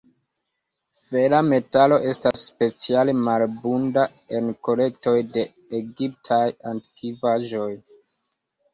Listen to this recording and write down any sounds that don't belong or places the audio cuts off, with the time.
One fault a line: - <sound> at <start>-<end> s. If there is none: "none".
- dropout at 2.3-2.3 s